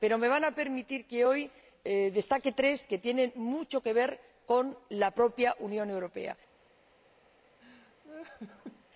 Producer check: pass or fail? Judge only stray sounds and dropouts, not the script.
fail